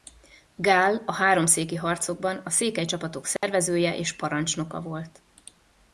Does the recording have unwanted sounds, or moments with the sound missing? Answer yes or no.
yes